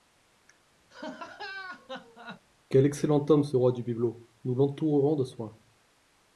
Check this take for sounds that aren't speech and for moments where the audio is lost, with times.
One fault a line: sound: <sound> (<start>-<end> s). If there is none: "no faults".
sound: laugh (0.9-2.4 s)